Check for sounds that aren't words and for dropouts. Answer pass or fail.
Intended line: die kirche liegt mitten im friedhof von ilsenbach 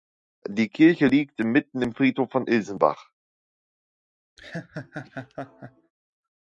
fail